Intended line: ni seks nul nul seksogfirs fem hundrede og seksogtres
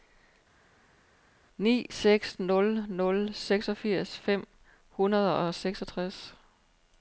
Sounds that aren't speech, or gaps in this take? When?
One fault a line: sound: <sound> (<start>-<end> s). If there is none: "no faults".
no faults